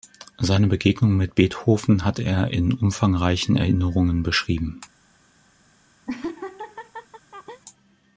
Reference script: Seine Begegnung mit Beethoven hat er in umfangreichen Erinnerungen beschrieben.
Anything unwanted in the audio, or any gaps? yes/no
yes